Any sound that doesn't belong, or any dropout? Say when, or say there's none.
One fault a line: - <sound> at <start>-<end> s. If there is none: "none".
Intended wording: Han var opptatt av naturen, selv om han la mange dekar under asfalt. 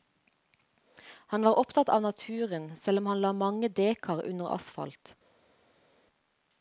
none